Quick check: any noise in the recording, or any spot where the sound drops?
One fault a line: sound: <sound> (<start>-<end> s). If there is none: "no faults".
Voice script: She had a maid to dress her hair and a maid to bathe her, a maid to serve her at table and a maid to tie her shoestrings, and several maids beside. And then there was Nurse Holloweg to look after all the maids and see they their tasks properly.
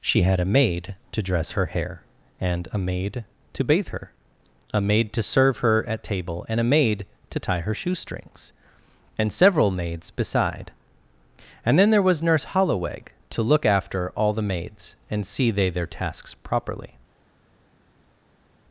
no faults